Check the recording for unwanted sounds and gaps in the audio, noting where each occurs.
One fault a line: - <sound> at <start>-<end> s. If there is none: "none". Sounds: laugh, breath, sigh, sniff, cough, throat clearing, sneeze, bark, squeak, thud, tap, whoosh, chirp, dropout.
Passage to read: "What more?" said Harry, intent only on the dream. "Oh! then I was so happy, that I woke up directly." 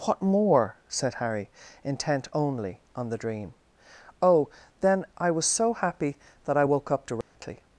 - dropout at 7.2-7.4 s